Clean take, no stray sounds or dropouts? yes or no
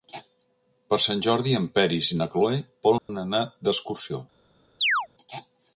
no